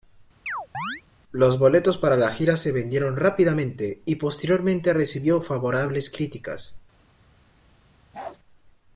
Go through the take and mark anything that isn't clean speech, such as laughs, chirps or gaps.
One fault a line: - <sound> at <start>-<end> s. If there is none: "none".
- chirp at 0.5-1.0 s
- bark at 8.1-8.4 s